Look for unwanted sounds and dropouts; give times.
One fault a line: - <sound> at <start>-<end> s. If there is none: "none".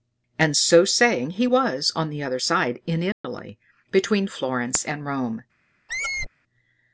- dropout at 3.1-3.2 s
- squeak at 5.9-6.3 s